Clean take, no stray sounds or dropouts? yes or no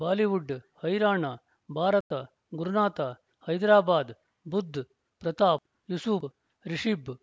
yes